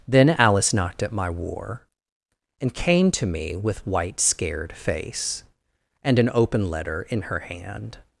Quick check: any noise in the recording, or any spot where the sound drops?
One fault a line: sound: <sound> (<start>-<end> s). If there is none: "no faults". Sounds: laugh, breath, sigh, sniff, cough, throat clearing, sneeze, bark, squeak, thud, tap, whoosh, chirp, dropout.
no faults